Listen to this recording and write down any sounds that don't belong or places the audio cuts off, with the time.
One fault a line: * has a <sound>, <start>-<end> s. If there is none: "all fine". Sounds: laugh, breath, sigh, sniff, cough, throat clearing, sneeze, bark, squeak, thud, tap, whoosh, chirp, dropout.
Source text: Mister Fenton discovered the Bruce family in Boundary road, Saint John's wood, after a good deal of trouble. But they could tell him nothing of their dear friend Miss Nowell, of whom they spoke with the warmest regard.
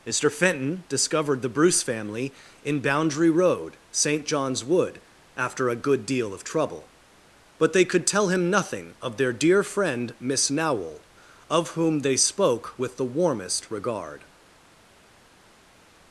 all fine